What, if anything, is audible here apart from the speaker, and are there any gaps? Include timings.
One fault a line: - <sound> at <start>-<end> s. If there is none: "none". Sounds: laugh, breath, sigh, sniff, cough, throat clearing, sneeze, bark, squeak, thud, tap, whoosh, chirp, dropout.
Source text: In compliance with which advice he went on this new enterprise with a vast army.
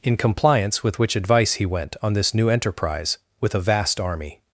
none